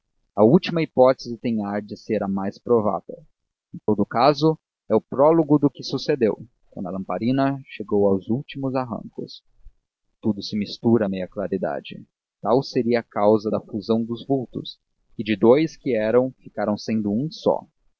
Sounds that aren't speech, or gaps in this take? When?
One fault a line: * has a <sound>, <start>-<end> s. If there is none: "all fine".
* has a dropout, 3.8-3.9 s